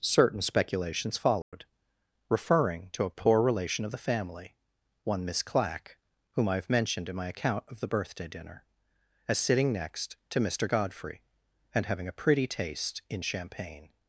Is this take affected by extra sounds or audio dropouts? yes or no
yes